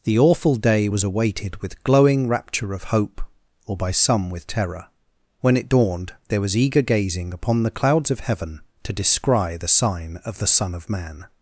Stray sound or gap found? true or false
false